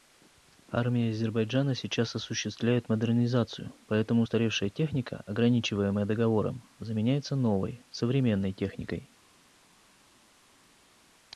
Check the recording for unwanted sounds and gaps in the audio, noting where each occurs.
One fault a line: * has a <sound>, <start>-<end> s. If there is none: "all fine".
all fine